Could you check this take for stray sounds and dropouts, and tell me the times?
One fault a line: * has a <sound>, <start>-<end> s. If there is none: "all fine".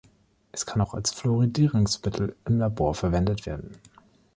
all fine